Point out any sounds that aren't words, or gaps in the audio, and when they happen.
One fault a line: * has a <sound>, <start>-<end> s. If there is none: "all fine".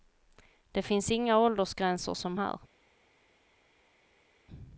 all fine